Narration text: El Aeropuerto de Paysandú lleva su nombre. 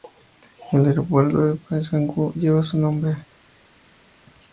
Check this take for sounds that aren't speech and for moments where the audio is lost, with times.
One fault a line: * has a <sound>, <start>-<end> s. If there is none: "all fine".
all fine